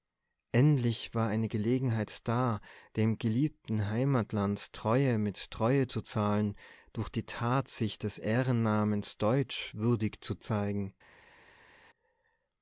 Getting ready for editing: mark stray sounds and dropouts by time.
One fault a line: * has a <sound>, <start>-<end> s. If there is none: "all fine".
all fine